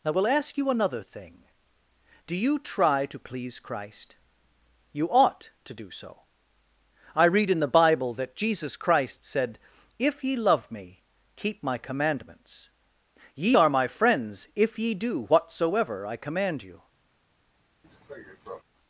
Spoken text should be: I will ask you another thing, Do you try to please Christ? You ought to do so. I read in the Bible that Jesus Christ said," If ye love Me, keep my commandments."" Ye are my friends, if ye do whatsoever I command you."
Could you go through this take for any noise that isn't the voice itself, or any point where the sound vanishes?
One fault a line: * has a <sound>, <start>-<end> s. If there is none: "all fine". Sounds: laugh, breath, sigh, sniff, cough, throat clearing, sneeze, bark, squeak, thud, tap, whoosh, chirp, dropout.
* has a cough, 17.8-18.6 s